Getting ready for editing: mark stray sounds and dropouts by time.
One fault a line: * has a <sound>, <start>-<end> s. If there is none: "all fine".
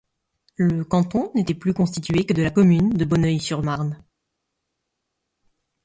all fine